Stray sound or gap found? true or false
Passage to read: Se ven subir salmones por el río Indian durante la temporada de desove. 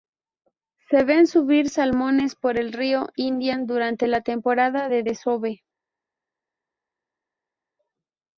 false